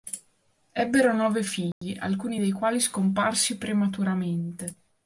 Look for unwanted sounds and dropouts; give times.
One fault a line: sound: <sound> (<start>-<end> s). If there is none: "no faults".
sound: dropout (1.7-1.8 s)